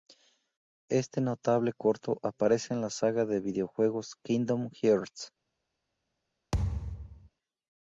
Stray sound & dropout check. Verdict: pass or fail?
fail